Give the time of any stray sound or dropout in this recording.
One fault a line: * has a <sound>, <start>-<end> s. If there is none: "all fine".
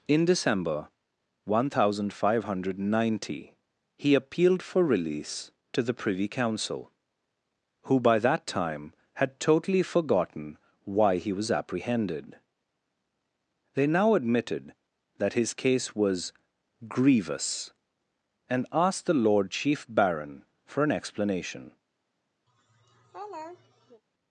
* has a laugh, 22.5-24.0 s